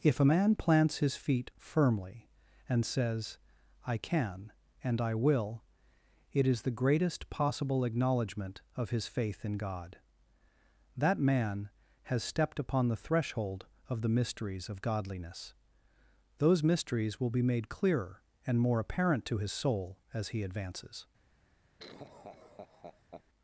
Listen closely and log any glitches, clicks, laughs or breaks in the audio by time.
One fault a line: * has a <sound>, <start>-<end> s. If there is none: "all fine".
* has a laugh, 21.8-23.2 s